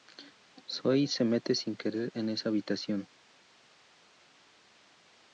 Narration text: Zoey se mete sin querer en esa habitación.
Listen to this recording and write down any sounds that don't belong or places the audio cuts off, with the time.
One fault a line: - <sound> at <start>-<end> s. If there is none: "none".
none